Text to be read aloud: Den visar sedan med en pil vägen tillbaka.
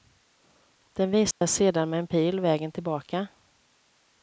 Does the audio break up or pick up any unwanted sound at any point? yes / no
yes